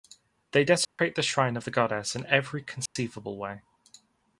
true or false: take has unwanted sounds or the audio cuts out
true